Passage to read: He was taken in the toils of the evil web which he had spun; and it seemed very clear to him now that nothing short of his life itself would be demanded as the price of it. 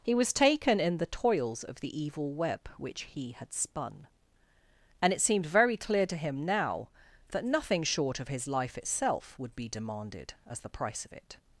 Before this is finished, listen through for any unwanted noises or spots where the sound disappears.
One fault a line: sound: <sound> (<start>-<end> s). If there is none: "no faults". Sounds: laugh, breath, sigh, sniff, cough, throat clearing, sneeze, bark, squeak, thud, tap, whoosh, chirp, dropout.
no faults